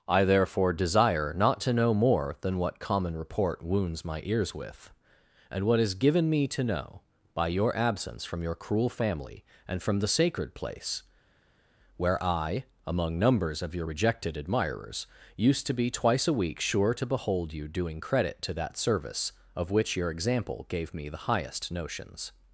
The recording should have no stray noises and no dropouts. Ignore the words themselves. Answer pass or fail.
pass